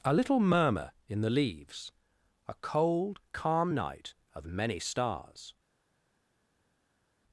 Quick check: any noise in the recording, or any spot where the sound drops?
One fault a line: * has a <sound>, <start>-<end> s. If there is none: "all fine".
all fine